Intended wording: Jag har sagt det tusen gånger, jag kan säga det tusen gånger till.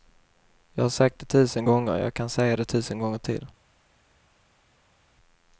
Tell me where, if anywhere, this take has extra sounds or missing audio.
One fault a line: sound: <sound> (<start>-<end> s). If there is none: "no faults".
no faults